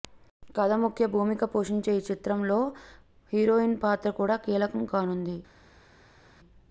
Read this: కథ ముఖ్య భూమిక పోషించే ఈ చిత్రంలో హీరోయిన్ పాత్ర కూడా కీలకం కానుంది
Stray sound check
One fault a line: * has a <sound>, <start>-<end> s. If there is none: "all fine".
all fine